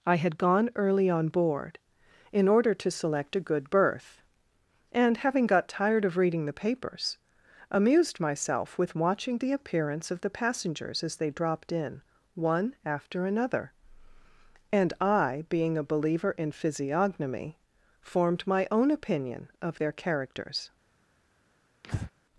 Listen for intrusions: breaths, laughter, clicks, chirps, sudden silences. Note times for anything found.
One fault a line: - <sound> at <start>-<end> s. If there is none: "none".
- breath at 21.8-22.1 s